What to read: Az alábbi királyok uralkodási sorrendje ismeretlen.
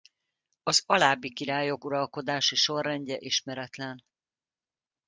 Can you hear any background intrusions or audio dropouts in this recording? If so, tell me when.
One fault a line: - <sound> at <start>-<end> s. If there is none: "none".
none